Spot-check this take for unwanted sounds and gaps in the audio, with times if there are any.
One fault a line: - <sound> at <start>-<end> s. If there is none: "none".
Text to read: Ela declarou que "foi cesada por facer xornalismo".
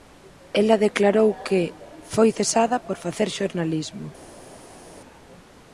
none